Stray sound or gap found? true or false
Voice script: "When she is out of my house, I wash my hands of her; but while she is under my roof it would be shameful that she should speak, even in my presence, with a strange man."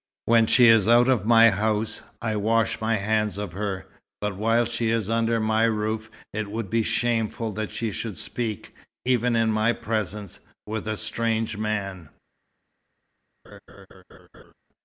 true